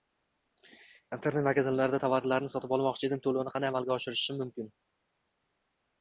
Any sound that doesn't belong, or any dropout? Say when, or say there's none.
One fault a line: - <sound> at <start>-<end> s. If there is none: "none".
none